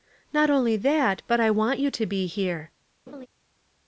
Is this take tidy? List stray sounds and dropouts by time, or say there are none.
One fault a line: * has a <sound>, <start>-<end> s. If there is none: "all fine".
* has a laugh, 3.1-3.3 s